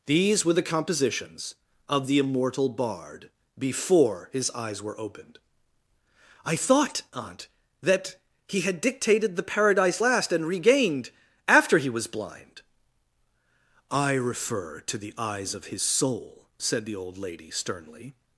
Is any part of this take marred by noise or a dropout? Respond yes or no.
no